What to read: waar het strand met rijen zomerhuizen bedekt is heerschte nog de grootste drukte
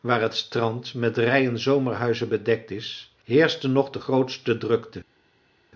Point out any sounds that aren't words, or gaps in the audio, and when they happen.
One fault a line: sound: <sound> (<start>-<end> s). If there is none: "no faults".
no faults